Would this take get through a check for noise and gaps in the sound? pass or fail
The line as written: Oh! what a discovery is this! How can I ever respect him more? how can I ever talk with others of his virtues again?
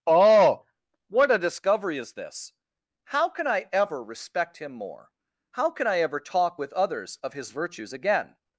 pass